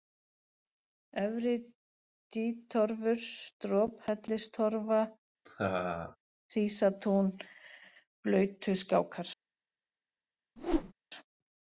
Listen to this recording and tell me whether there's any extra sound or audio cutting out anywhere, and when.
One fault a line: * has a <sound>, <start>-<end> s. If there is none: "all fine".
* has a laugh, 5.5-6.2 s
* has a whoosh, 10.6-10.9 s